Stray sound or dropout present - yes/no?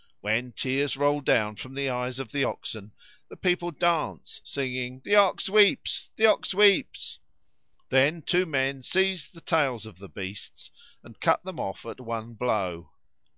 no